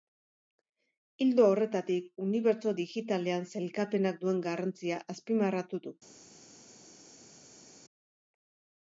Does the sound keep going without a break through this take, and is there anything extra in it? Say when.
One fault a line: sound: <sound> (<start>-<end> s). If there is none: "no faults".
no faults